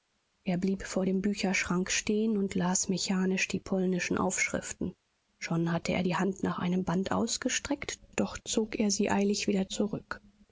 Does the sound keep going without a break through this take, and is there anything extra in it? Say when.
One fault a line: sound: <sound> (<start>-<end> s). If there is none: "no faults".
no faults